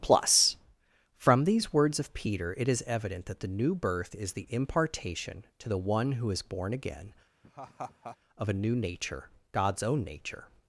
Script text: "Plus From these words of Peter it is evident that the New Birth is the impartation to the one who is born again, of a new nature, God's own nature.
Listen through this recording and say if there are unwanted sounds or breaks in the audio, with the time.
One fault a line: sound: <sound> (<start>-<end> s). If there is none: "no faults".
sound: laugh (7.4-8.2 s)